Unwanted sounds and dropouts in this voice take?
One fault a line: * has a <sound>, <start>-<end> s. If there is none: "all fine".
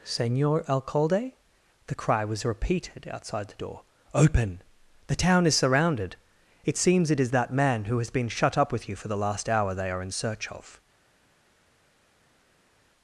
all fine